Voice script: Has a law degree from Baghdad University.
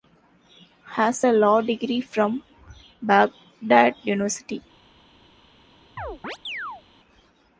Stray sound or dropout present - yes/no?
yes